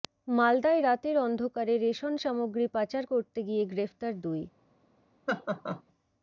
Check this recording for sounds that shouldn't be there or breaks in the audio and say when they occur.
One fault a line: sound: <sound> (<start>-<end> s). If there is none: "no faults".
sound: laugh (5.3-5.8 s)